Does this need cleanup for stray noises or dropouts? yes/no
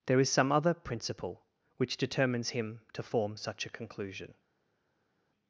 no